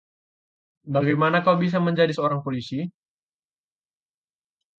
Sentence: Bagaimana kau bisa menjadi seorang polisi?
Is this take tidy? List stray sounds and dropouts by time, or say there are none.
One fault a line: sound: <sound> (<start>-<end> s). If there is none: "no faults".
no faults